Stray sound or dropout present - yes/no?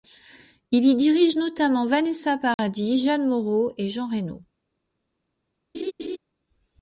yes